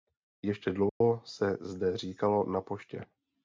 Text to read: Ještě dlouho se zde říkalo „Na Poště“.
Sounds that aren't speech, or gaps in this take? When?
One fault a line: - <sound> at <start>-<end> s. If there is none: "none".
- dropout at 0.9-1.0 s